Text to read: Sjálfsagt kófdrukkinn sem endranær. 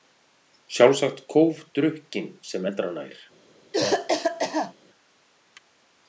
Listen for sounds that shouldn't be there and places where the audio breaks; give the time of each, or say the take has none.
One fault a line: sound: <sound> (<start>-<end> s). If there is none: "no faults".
sound: cough (3.7-4.7 s)